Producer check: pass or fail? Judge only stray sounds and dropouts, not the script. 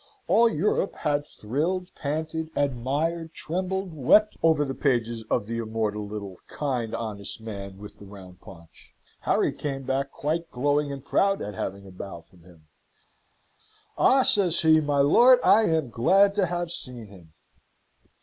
pass